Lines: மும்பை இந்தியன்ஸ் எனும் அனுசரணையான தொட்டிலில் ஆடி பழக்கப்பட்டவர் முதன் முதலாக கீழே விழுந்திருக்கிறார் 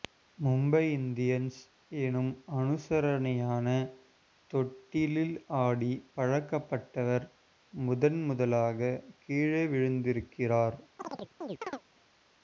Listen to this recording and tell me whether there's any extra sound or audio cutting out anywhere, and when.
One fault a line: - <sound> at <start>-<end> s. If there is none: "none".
- chirp at 11.0-11.8 s